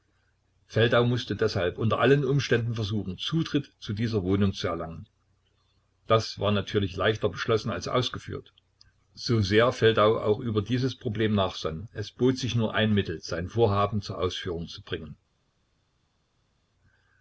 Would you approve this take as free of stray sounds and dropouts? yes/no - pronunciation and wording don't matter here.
yes